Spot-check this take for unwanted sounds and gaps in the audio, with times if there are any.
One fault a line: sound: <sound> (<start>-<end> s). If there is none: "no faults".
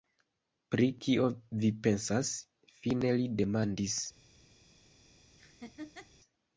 sound: laugh (5.4-6.1 s)